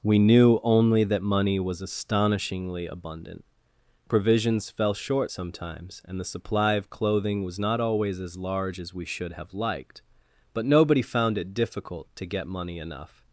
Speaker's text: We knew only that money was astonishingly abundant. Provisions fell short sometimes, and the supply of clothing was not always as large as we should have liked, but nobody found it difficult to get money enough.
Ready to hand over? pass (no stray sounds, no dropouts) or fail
pass